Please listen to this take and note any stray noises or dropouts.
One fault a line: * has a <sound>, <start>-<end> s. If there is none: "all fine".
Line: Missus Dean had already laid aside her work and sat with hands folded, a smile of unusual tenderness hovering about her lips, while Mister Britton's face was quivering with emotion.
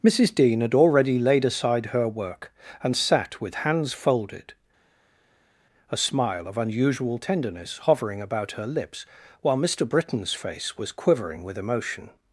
all fine